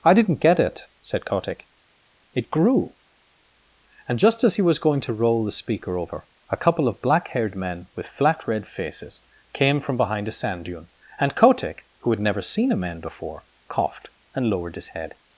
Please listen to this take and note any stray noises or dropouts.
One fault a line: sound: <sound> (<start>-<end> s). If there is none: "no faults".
no faults